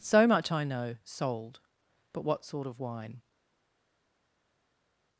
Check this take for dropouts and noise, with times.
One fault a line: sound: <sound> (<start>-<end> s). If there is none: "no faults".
no faults